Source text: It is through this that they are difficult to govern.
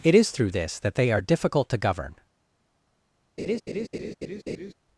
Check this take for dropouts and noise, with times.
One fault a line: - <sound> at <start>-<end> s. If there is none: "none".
- laugh at 3.4-4.7 s